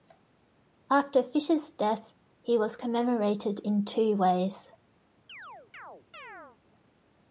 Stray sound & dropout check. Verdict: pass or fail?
fail